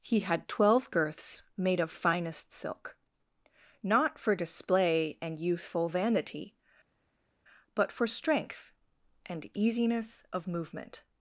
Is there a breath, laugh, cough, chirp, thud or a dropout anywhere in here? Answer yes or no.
no